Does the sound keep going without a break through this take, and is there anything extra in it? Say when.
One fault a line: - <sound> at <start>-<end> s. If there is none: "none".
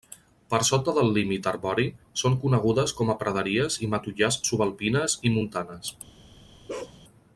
- bark at 6.7-7.0 s